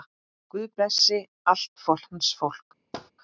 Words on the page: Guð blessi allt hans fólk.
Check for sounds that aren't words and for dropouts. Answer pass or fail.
fail